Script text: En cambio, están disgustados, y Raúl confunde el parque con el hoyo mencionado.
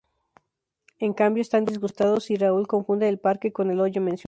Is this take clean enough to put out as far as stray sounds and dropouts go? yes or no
yes